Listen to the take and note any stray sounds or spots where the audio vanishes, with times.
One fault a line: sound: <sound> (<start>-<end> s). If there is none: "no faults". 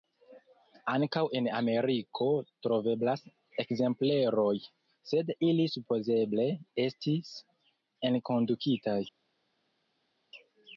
no faults